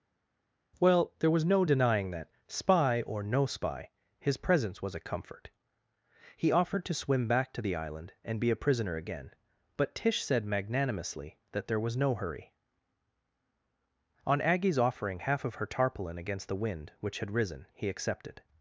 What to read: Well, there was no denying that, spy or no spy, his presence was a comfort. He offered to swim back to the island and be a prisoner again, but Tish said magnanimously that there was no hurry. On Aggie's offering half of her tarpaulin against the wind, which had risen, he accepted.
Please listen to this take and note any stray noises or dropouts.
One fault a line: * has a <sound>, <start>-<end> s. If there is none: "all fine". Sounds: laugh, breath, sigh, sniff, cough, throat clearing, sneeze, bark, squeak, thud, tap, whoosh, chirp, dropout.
all fine